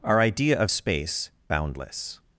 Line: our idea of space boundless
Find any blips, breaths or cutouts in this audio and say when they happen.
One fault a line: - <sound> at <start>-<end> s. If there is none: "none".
none